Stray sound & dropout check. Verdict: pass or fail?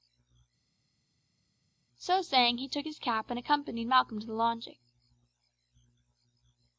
pass